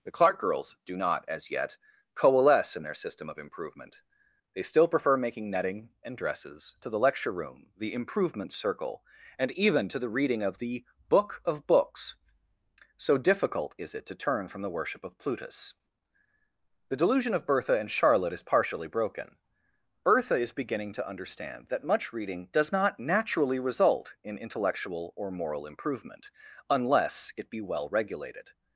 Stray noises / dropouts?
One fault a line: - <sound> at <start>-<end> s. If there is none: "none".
none